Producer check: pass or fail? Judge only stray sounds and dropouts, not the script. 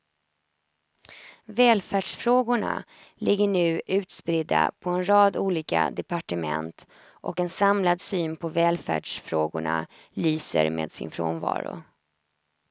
pass